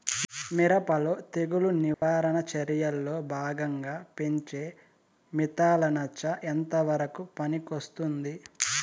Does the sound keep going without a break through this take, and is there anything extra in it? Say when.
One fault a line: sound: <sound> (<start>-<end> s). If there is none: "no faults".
sound: dropout (1.9-2.0 s)